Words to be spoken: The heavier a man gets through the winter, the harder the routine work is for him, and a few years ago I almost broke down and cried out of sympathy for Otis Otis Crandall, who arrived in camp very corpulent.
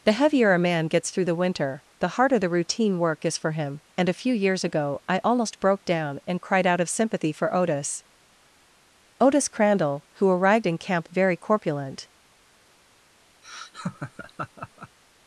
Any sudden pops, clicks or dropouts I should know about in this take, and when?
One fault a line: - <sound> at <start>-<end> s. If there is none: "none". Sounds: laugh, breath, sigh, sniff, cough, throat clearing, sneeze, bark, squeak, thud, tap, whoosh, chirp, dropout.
- laugh at 13.4-15.0 s